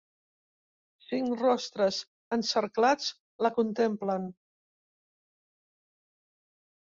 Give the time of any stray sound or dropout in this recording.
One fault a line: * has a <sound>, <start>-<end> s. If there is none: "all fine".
all fine